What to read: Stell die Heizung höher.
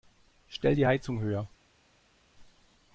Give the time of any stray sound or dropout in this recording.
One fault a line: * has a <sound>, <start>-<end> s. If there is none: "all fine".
all fine